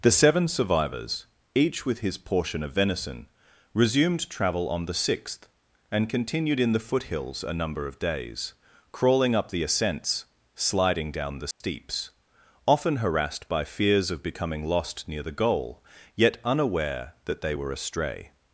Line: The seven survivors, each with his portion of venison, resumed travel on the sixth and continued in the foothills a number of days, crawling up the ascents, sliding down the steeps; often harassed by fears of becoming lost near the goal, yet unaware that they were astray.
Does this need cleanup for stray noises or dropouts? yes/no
yes